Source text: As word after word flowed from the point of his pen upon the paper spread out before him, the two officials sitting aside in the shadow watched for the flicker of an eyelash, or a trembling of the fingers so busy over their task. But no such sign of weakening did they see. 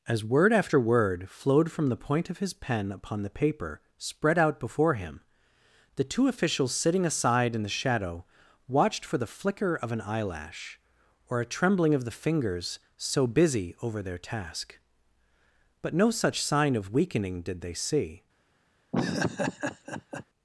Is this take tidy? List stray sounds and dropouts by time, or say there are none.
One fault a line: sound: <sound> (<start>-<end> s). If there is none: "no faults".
sound: laugh (18.9-20.2 s)